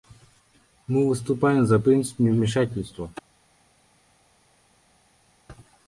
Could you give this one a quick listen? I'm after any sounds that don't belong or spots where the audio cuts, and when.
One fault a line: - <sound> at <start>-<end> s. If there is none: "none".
none